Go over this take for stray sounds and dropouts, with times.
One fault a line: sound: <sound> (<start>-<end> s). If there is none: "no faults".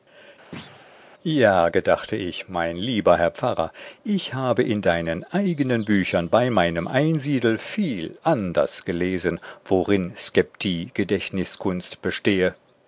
sound: thud (0.5-0.9 s)